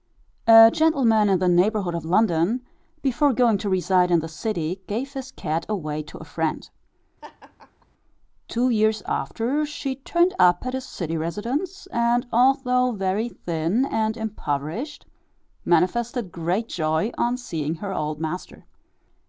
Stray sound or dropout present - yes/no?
yes